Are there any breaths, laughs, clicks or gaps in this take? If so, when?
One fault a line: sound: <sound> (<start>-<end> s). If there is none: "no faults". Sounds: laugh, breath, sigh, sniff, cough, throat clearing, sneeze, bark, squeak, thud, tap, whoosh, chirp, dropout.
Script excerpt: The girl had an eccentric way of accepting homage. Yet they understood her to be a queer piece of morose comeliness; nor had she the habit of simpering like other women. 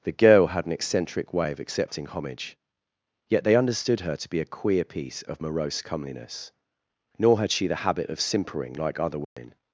sound: dropout (9.2-9.4 s)